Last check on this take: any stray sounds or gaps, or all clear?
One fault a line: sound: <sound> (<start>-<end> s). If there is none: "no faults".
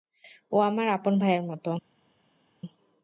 no faults